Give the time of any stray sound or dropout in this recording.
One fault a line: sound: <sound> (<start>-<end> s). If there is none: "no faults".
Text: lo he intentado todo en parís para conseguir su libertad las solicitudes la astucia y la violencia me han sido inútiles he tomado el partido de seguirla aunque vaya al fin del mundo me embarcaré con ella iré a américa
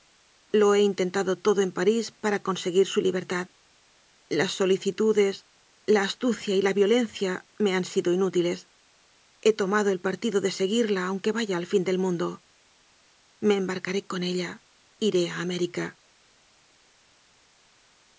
no faults